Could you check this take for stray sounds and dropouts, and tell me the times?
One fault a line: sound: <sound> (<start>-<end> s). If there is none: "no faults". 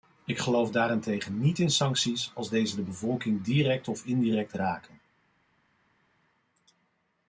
no faults